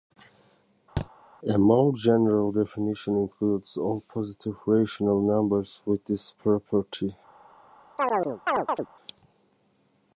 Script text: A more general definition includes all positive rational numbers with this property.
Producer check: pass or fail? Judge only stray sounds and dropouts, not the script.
fail